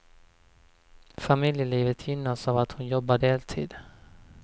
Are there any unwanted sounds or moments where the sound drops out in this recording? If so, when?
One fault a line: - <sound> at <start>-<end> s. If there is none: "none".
none